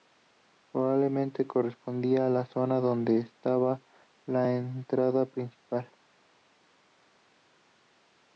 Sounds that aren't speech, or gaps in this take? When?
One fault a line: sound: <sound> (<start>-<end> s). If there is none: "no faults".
no faults